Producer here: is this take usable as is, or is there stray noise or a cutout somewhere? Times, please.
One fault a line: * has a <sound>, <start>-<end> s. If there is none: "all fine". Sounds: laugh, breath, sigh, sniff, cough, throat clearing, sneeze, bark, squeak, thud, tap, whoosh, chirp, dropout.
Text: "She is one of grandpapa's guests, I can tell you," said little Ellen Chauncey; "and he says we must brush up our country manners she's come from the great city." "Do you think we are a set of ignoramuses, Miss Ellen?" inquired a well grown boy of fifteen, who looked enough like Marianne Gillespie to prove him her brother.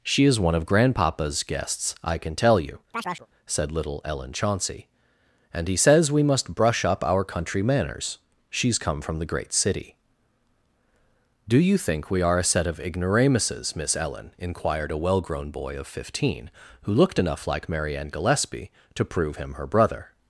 * has a chirp, 2.9-3.3 s